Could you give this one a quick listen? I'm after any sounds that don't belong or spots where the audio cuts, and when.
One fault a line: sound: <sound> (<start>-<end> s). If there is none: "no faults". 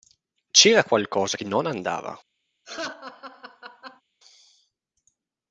sound: laugh (2.6-4.0 s)